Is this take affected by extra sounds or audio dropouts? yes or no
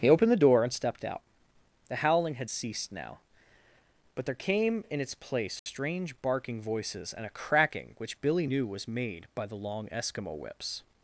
yes